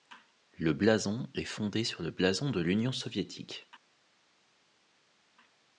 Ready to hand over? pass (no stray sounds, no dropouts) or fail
pass